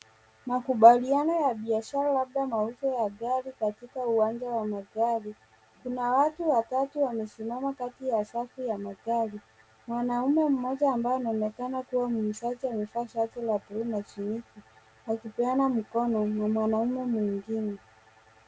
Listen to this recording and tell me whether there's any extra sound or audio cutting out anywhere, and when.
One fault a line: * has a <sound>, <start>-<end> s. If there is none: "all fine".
all fine